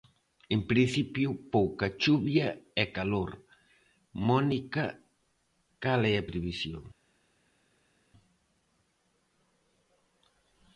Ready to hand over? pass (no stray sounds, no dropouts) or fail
pass